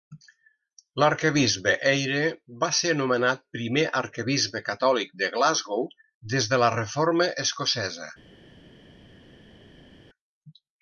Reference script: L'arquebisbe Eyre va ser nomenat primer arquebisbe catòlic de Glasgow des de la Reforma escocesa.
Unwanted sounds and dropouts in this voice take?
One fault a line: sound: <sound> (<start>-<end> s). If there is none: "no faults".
no faults